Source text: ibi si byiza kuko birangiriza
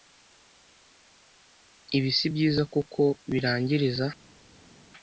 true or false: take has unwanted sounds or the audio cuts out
false